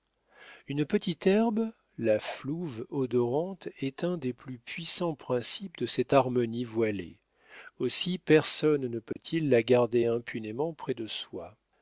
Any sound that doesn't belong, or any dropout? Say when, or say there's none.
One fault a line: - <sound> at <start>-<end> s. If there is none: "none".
- dropout at 9.1-9.2 s